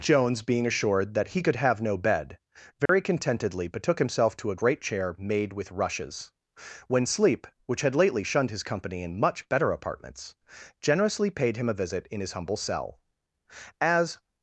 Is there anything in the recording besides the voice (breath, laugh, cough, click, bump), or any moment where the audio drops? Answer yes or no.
yes